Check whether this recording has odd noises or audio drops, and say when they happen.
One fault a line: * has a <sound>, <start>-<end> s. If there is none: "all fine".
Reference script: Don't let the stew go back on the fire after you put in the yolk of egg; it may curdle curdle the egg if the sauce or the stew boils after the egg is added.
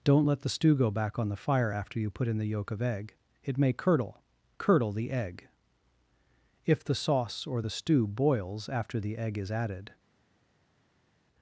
all fine